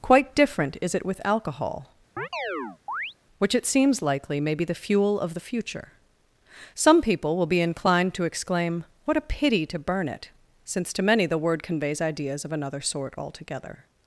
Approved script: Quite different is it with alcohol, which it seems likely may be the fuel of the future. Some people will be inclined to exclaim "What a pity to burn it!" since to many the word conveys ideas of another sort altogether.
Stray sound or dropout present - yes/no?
yes